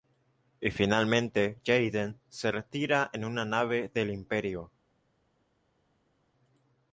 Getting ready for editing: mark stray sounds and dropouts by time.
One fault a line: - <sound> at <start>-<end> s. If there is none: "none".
none